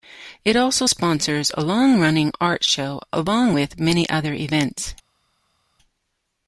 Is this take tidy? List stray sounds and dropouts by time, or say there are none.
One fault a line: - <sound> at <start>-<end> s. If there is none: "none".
none